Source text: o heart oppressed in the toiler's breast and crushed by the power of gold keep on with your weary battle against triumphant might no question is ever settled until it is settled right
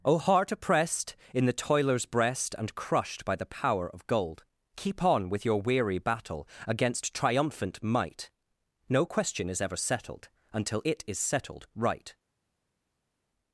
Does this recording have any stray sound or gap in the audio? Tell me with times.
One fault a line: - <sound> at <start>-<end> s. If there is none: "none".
none